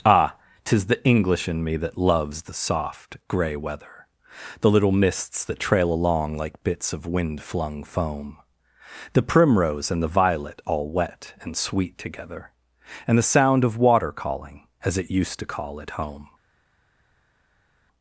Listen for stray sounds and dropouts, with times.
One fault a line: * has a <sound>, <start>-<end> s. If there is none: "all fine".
all fine